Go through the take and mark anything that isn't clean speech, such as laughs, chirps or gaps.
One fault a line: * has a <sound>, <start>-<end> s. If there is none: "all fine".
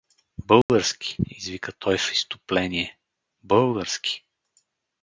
* has a dropout, 0.6-0.7 s